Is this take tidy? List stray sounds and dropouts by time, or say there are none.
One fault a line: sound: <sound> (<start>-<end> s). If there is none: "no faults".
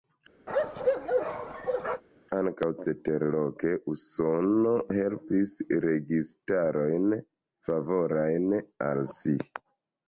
sound: bark (0.5-2.0 s)